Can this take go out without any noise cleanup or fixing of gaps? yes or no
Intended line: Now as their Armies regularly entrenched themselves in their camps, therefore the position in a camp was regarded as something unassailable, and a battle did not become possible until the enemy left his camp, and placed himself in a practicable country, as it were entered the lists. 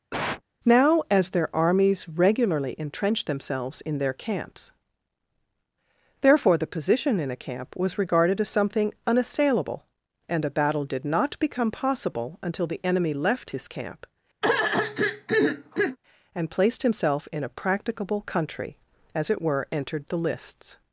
no